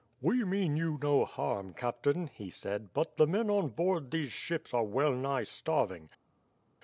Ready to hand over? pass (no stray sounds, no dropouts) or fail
pass